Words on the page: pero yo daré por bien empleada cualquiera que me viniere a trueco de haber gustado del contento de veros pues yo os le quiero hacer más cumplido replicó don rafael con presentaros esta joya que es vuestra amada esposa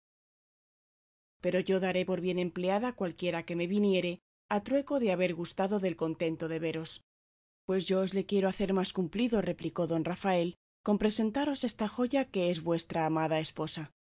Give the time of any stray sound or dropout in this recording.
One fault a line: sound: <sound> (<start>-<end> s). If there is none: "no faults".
no faults